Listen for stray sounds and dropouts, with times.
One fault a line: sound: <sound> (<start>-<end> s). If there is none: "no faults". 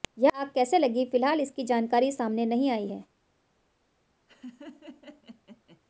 sound: laugh (4.3-5.8 s)